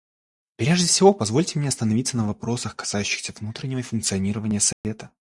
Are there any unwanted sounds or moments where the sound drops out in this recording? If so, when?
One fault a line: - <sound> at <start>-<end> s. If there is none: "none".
- dropout at 4.7-4.8 s